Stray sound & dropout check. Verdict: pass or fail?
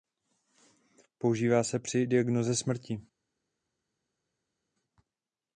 pass